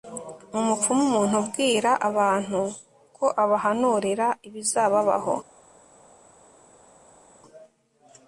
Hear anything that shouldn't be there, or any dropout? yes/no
no